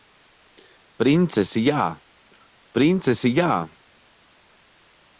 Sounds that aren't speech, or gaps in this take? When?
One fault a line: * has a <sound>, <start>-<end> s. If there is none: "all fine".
all fine